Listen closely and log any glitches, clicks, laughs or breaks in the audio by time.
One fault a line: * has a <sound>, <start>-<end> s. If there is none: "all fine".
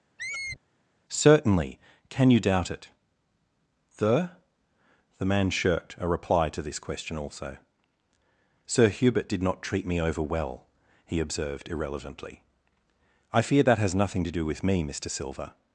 * has a squeak, 0.2-0.6 s